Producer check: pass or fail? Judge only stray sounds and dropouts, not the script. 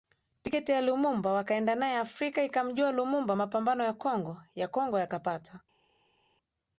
pass